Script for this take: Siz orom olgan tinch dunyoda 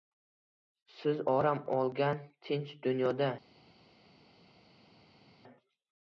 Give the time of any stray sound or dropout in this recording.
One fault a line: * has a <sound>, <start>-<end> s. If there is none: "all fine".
all fine